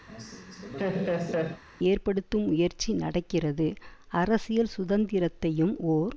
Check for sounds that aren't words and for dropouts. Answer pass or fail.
fail